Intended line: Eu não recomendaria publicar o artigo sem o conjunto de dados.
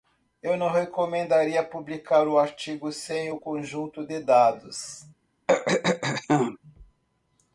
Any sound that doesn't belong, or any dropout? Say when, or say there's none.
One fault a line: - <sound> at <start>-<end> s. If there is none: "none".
- throat clearing at 5.5-6.6 s